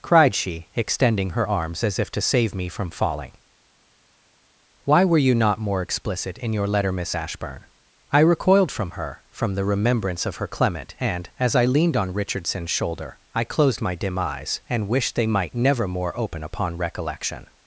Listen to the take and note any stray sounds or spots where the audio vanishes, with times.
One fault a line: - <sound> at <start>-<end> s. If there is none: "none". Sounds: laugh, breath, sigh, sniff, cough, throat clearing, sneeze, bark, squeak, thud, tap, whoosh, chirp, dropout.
none